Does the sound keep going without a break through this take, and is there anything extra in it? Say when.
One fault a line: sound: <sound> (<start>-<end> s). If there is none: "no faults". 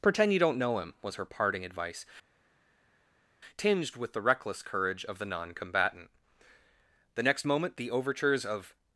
no faults